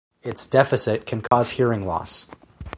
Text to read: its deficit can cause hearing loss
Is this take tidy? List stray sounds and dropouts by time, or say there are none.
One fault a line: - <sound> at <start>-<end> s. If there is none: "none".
- dropout at 1.3-1.3 s